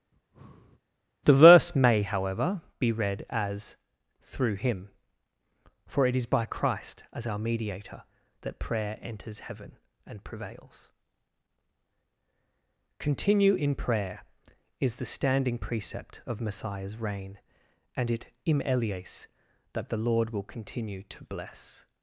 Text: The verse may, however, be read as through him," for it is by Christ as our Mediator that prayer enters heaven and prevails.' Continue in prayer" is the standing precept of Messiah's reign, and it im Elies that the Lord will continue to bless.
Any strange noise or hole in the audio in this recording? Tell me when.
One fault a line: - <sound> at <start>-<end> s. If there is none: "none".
- breath at 0.1-0.8 s